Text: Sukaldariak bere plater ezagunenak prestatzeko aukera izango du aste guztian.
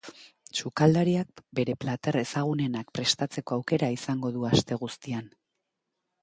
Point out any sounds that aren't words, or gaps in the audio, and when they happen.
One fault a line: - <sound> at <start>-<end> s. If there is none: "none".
none